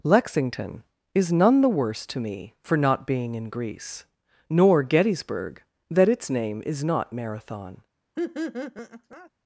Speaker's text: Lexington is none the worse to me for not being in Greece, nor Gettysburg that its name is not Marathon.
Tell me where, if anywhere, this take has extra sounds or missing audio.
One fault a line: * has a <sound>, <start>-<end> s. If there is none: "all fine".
* has a laugh, 8.2-9.3 s